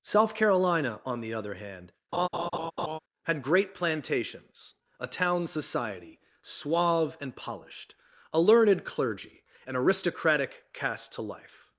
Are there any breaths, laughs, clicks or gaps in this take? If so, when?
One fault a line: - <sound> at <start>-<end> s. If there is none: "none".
- laugh at 2.1-3.0 s